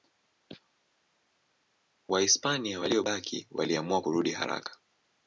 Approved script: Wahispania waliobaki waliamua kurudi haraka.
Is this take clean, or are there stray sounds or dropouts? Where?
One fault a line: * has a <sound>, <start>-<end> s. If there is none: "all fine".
all fine